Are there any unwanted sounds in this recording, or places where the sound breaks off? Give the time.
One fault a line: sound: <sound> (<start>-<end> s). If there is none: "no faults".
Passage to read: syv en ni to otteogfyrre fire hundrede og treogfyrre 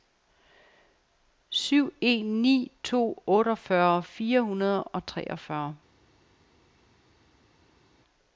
no faults